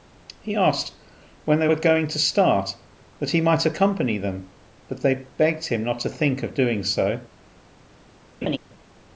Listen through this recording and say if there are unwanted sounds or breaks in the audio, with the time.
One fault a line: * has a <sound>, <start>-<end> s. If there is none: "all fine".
* has a laugh, 8.4-8.6 s